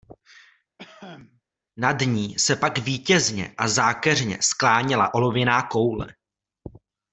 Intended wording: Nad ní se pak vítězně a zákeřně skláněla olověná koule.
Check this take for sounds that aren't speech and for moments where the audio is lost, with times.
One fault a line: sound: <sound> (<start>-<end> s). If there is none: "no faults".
sound: cough (0.8-1.4 s)